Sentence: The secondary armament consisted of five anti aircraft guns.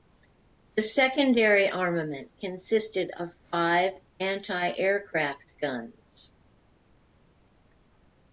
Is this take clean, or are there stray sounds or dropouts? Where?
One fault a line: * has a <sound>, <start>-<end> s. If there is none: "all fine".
all fine